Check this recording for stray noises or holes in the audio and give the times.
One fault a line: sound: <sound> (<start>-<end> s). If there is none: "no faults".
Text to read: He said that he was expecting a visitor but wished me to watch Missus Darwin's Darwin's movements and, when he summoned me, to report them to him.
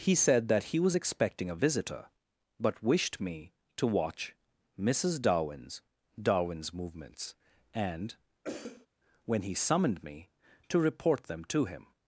sound: cough (8.4-8.9 s)